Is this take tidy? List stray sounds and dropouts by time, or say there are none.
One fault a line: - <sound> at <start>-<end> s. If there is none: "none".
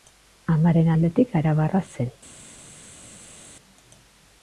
none